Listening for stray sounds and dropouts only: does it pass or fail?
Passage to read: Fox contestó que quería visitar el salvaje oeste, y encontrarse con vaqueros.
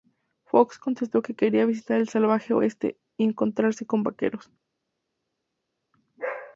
pass